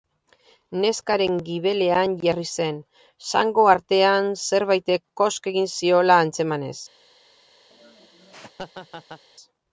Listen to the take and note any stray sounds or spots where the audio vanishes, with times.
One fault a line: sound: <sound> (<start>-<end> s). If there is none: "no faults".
sound: laugh (7.7-9.2 s)